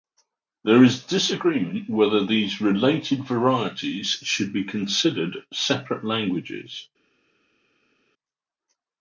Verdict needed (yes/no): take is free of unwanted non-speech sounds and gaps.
yes